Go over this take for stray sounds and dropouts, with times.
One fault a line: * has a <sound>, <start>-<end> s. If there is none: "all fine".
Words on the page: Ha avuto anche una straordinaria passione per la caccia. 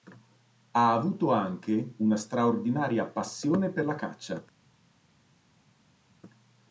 all fine